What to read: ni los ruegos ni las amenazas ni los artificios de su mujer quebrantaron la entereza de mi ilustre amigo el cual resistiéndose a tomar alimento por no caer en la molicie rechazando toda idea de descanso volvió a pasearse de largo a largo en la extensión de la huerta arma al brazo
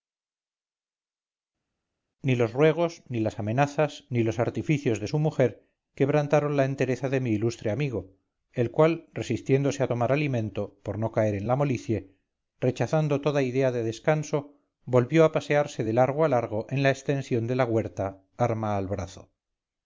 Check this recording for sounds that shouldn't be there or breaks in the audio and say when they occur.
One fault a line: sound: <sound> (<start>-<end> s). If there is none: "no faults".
no faults